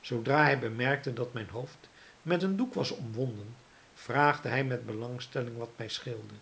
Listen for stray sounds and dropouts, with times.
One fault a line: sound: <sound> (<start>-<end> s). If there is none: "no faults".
no faults